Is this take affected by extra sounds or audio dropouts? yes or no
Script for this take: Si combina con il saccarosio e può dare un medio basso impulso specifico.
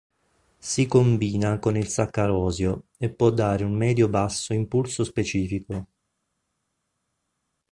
no